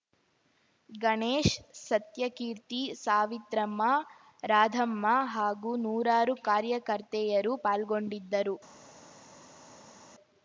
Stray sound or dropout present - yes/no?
no